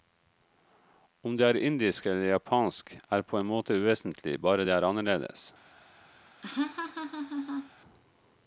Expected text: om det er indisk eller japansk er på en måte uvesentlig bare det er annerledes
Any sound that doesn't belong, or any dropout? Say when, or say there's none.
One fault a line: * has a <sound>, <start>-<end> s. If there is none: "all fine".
* has a laugh, 6.4-7.7 s